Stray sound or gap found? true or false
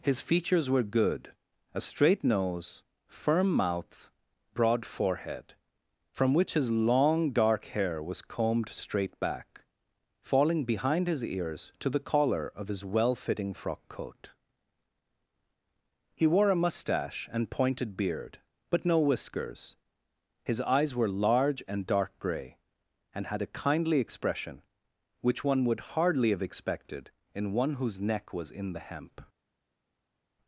false